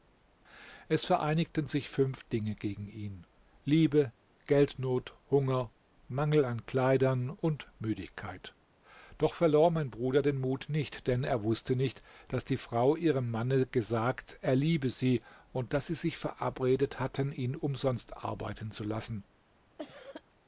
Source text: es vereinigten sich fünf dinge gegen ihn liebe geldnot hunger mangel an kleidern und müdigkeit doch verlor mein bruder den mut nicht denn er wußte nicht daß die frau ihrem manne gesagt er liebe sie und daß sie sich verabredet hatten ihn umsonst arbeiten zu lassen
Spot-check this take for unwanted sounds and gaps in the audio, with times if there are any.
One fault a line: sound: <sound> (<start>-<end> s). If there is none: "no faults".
sound: cough (19.8-20.2 s)